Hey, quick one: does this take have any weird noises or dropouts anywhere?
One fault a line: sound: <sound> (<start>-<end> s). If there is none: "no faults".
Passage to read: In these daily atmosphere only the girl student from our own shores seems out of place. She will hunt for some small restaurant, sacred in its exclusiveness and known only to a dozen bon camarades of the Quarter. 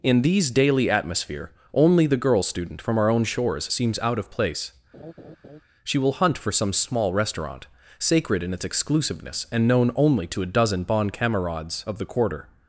sound: laugh (4.9-5.6 s)